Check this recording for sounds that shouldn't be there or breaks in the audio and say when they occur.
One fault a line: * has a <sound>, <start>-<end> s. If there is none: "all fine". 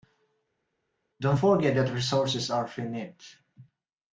all fine